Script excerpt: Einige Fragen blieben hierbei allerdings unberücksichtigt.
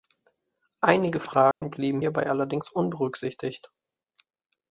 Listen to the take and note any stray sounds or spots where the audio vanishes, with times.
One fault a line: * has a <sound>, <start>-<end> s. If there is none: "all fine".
* has a dropout, 1.5-1.6 s